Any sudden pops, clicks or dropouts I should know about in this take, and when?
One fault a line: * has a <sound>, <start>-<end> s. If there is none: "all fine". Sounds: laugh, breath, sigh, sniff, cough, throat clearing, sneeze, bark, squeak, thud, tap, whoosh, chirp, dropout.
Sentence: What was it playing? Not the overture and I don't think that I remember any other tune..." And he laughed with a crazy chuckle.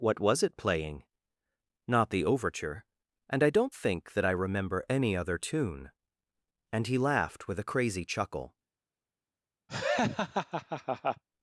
* has a laugh, 9.7-11.2 s